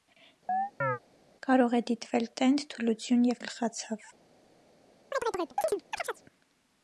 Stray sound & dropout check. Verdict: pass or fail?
fail